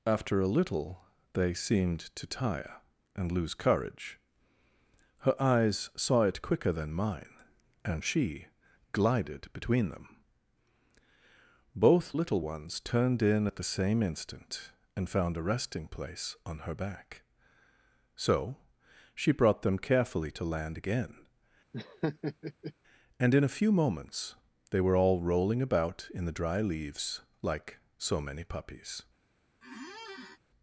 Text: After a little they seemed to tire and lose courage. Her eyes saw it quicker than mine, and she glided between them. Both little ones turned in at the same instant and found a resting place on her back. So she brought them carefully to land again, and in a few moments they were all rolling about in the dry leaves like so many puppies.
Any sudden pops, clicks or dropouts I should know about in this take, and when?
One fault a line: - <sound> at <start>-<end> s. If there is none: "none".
- laugh at 21.7-22.7 s
- squeak at 29.6-30.4 s